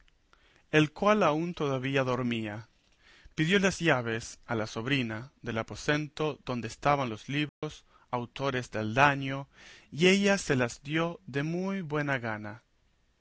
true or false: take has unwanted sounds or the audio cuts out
true